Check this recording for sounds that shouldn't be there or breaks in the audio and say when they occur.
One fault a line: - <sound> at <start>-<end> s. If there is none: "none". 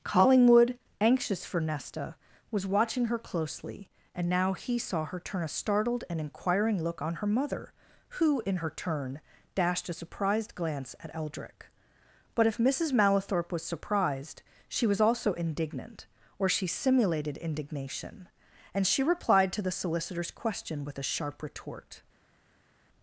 none